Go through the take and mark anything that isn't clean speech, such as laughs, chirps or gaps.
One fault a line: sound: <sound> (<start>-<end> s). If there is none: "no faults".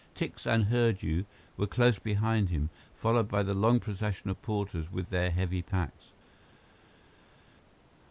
no faults